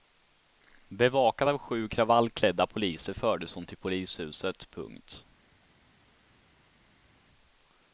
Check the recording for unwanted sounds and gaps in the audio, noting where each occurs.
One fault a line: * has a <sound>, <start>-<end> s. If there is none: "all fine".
all fine